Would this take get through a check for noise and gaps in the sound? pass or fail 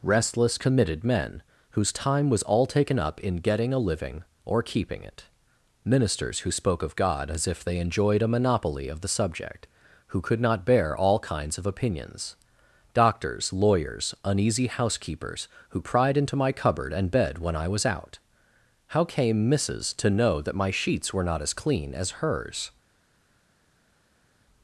pass